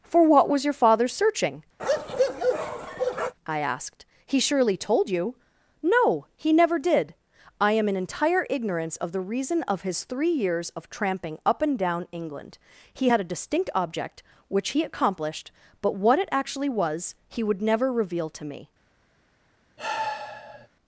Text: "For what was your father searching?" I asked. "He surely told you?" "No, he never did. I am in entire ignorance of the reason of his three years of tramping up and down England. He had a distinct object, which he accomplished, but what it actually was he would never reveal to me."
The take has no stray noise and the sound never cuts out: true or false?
false